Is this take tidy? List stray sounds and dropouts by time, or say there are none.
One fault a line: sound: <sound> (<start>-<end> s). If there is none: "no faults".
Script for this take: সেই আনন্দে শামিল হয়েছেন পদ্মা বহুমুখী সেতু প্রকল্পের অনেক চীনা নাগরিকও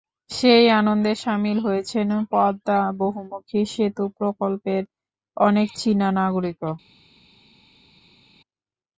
no faults